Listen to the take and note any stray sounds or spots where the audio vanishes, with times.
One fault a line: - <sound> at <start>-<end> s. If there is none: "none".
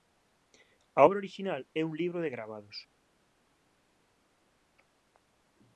none